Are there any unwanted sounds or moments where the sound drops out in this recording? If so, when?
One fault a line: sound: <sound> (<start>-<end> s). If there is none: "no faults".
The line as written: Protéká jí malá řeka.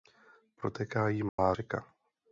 sound: dropout (1.3-1.4 s)